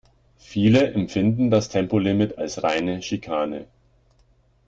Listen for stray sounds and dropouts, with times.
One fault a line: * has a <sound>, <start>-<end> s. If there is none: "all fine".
all fine